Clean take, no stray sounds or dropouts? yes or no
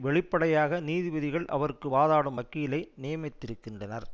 yes